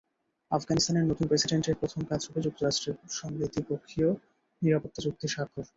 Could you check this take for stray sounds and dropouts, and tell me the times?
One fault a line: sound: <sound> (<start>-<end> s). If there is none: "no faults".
no faults